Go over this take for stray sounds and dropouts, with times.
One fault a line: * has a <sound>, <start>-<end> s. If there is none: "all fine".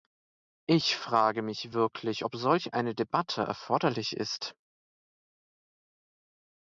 all fine